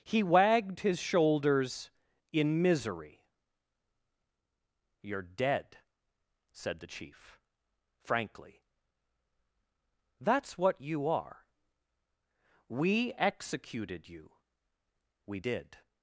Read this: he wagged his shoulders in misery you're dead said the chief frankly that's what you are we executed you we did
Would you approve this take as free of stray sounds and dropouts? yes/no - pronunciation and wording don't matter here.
yes